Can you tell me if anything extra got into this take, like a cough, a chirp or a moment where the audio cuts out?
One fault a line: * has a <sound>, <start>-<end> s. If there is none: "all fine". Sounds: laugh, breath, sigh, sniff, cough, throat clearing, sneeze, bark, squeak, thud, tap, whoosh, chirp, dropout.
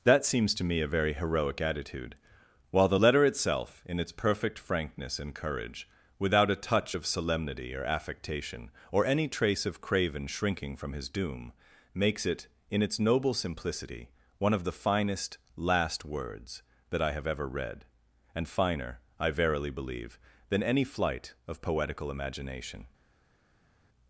all fine